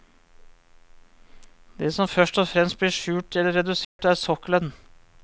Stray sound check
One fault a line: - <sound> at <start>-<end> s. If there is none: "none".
- dropout at 3.8-4.0 s